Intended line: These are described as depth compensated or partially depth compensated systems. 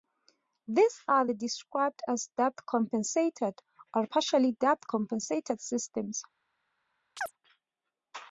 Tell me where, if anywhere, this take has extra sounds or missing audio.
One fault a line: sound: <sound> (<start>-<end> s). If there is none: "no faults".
sound: chirp (7.2-7.3 s)